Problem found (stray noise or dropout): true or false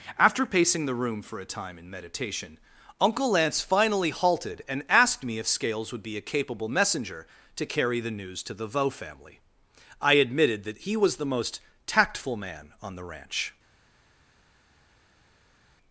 false